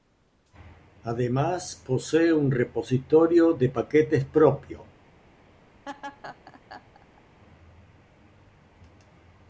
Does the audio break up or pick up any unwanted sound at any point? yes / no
yes